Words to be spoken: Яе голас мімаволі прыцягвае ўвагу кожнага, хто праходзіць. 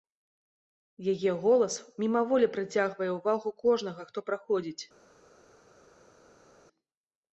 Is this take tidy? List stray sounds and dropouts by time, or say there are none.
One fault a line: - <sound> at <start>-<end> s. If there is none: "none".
none